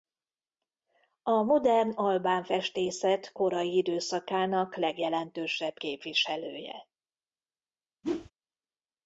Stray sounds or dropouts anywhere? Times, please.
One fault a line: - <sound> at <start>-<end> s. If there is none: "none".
- whoosh at 8.0-8.3 s